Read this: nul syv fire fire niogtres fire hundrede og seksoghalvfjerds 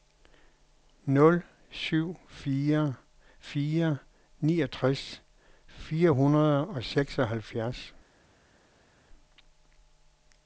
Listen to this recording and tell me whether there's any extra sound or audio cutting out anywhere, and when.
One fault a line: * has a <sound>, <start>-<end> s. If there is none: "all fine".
all fine